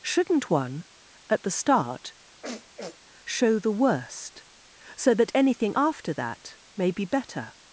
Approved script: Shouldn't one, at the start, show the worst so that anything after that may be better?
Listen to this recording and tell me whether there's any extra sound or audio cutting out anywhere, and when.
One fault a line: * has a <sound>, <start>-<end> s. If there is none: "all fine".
* has a sniff, 2.4-3.0 s